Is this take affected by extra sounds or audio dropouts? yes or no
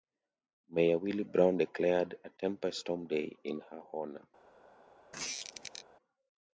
yes